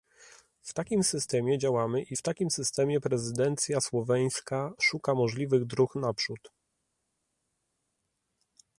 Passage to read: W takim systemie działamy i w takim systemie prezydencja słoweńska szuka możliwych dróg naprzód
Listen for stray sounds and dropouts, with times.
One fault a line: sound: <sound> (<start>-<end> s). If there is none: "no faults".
no faults